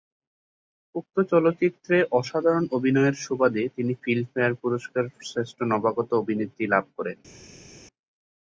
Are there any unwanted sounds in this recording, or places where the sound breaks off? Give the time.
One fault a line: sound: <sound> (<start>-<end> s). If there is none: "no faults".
no faults